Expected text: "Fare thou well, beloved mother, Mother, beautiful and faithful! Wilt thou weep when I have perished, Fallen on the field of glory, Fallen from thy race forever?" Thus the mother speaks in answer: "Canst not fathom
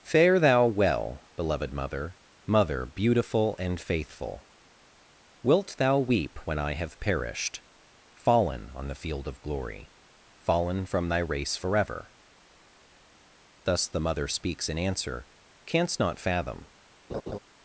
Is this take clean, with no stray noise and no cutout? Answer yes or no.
no